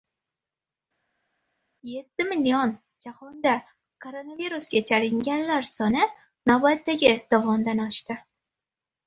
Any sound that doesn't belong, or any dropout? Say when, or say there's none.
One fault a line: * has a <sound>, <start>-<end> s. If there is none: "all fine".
all fine